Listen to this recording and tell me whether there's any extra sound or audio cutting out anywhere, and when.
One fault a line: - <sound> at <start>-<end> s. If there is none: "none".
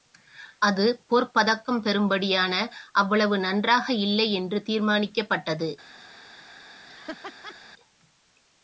- laugh at 6.9-7.6 s